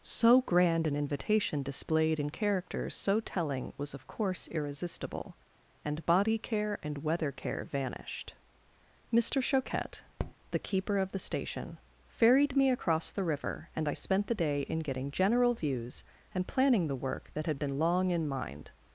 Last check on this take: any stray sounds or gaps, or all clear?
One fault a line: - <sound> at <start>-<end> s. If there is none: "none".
- tap at 10.2-10.3 s